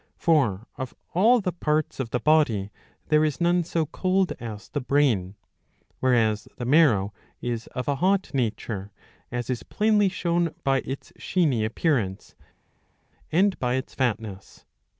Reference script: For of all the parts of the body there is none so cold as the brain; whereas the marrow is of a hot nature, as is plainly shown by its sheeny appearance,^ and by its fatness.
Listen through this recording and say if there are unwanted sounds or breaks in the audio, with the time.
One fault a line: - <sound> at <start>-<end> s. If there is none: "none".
none